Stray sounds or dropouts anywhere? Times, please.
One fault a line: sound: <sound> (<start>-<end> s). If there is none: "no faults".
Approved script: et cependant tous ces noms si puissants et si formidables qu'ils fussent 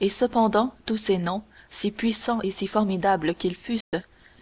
sound: dropout (3.8-3.9 s)